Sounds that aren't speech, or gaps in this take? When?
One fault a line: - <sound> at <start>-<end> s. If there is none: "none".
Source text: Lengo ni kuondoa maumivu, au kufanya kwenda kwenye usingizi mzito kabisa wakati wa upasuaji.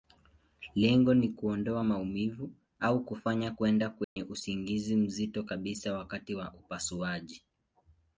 - dropout at 4.0-4.2 s